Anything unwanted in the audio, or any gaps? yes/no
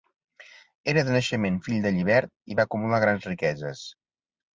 no